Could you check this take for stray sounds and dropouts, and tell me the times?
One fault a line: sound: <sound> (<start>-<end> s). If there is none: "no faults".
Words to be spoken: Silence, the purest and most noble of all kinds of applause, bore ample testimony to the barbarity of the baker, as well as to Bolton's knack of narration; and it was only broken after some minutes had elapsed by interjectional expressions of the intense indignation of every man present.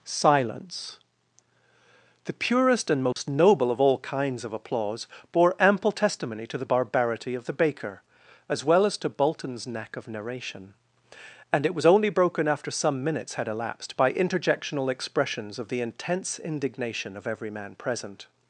sound: dropout (3.1-3.2 s)